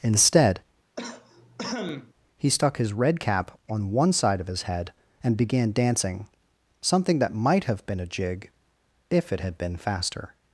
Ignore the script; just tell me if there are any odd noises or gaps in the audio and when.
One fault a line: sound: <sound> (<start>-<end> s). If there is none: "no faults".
sound: cough (1.0-2.1 s)